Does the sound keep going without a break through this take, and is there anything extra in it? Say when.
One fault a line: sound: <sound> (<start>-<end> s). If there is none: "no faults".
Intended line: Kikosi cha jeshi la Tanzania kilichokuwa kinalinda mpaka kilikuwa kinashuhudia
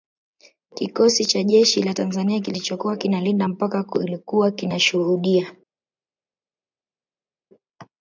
no faults